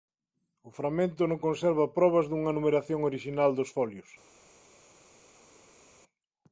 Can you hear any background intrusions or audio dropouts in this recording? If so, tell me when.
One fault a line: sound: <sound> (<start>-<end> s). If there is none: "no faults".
no faults